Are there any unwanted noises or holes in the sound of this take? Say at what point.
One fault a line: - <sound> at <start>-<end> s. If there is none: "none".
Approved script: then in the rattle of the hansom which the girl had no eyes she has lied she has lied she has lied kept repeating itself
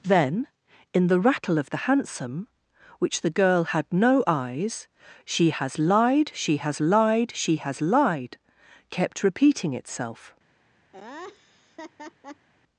- laugh at 10.9-12.5 s